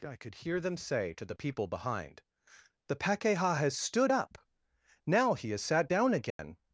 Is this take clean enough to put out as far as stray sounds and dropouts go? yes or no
no